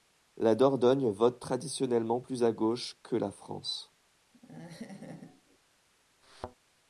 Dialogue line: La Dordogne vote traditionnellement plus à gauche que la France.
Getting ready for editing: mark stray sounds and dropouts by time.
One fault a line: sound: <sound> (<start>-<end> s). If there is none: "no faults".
sound: laugh (4.3-5.6 s)
sound: thud (6.2-6.6 s)